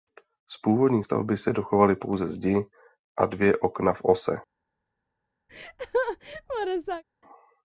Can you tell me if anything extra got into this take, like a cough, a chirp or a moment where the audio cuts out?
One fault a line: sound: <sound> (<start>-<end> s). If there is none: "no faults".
sound: laugh (5.5-7.0 s)